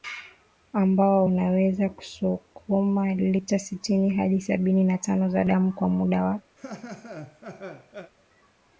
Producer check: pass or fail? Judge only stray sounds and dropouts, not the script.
fail